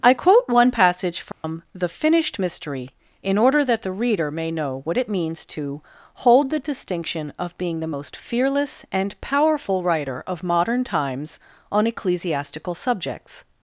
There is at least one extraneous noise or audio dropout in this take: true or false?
true